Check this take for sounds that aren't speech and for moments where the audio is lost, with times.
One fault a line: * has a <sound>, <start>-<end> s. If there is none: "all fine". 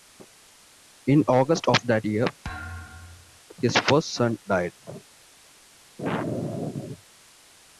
* has a thud, 2.4-3.4 s